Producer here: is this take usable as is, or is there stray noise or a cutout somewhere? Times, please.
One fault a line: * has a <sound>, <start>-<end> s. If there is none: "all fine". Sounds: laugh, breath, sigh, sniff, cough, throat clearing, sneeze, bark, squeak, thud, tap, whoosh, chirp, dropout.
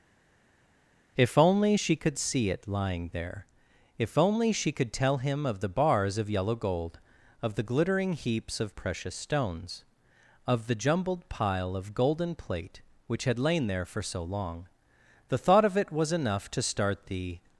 all fine